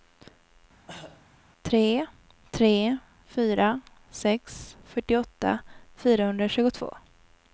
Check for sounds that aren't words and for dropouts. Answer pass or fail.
fail